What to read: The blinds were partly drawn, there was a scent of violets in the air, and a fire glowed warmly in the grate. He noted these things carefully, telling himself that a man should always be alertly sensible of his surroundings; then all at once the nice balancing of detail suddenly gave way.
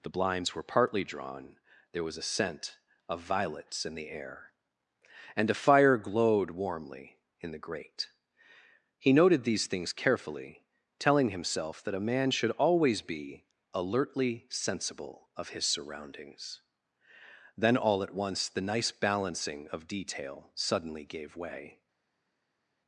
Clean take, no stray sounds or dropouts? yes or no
yes